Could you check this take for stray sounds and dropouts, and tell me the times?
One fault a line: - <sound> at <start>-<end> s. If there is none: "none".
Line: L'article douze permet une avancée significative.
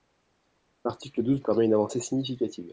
none